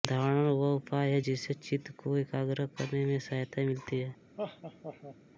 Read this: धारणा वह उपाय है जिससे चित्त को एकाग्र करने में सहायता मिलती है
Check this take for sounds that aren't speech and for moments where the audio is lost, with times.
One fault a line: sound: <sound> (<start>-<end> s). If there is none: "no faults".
sound: laugh (4.4-5.2 s)